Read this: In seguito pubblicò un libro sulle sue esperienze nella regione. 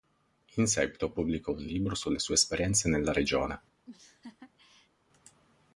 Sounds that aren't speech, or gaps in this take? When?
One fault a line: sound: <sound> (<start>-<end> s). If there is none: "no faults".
sound: laugh (3.9-4.9 s)